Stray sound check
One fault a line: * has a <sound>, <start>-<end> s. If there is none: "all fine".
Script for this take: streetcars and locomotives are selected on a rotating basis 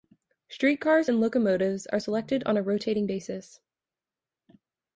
all fine